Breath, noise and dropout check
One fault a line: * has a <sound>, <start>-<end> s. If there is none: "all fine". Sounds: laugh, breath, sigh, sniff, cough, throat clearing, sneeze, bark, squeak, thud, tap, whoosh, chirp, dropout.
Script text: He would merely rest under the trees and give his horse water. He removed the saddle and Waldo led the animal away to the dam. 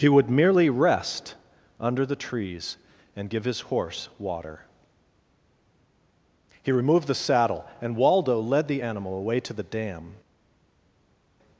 all fine